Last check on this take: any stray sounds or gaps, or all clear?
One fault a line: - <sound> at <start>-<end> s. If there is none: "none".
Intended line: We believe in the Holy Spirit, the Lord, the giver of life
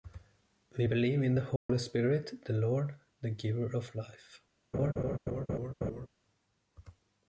- dropout at 1.6-1.7 s
- laugh at 4.7-6.1 s